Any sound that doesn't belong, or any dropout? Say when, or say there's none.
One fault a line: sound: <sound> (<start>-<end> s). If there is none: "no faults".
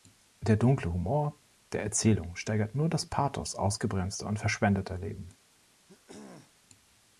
sound: throat clearing (5.9-6.6 s)